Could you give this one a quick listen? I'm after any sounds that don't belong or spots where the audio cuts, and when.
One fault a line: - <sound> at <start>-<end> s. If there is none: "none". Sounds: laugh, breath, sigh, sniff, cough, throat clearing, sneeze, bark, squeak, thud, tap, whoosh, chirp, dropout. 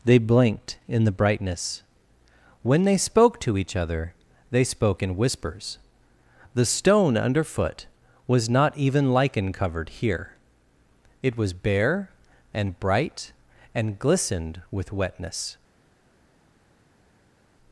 none